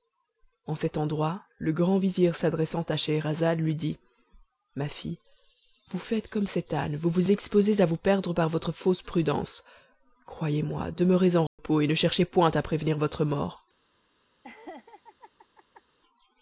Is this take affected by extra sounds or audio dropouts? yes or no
yes